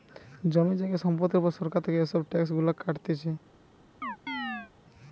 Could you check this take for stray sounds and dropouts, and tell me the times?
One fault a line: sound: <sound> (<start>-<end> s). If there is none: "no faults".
sound: chirp (4.0-4.7 s)